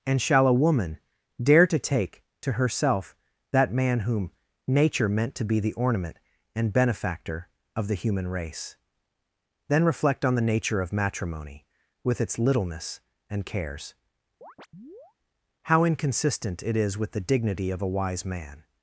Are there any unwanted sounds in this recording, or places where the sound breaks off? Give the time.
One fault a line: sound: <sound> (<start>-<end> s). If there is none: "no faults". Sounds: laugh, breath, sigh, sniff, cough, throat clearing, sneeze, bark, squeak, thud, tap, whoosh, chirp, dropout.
sound: chirp (14.4-15.1 s)